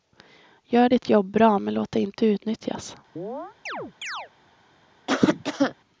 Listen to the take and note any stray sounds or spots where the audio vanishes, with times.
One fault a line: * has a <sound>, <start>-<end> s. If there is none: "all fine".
* has a chirp, 3.2-4.3 s
* has a cough, 5.1-5.7 s